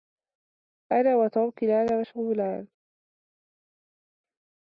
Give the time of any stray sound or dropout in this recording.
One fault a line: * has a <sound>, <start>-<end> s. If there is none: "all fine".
all fine